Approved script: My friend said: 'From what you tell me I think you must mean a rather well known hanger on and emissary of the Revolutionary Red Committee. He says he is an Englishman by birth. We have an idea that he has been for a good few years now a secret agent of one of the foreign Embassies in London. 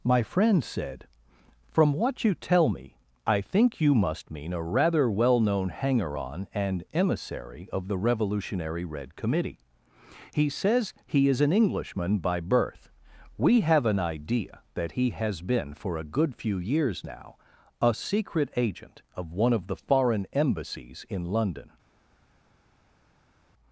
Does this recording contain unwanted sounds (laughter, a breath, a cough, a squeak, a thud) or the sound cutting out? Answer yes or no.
no